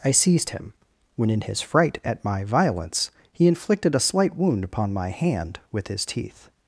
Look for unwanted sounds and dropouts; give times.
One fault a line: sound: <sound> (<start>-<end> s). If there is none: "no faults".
no faults